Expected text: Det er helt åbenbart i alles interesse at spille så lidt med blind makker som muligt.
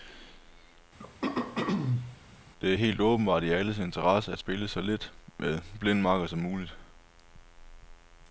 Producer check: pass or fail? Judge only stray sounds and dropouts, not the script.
fail